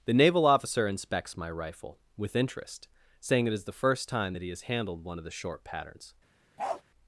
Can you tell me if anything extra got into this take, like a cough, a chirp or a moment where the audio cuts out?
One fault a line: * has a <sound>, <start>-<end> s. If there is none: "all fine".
* has a bark, 6.6-6.8 s